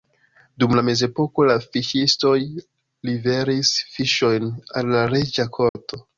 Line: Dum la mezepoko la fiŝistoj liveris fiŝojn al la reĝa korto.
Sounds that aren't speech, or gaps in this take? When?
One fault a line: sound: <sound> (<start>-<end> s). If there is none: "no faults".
sound: dropout (5.7-5.8 s)